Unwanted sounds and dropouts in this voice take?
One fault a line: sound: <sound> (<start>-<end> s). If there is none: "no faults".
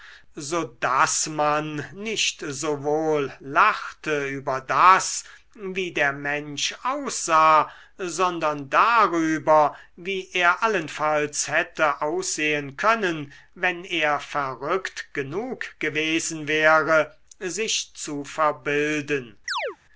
sound: chirp (19.5-19.8 s)